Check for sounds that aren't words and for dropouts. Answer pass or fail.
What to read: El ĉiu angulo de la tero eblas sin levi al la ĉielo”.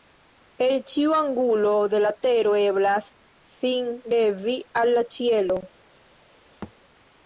fail